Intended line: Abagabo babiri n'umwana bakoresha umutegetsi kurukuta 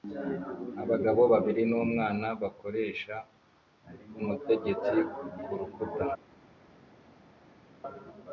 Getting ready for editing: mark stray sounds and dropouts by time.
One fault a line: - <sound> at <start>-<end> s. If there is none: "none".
none